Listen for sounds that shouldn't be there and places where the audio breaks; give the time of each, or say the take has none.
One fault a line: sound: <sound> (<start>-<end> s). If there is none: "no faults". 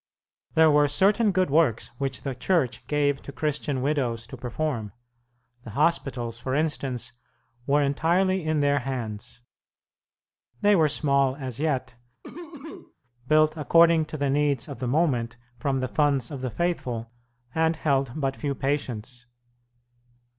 sound: cough (12.2-12.9 s)